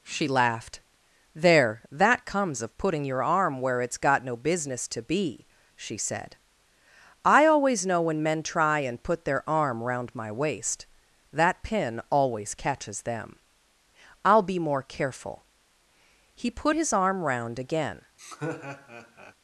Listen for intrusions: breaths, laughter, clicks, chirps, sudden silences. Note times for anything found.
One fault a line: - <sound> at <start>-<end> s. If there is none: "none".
- laugh at 18.2-19.3 s